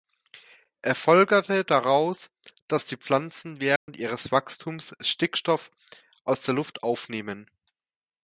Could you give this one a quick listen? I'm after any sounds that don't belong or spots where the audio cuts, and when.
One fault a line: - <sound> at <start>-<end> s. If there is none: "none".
- dropout at 3.8-3.9 s